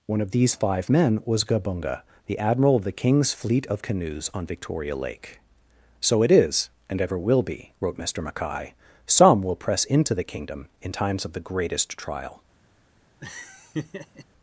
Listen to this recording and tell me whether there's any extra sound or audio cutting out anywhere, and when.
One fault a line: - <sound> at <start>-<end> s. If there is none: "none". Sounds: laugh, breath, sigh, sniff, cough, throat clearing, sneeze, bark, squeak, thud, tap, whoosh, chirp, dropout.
- laugh at 13.2-14.3 s